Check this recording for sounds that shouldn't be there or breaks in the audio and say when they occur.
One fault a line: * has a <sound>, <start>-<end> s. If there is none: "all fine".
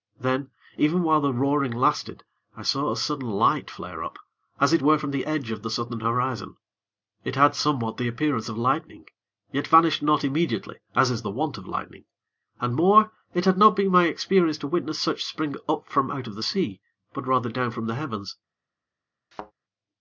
* has a thud, 19.3-19.5 s